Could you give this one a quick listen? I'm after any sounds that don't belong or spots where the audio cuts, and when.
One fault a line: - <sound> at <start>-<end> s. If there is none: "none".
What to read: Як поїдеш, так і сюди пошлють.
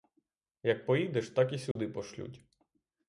- dropout at 1.7-1.8 s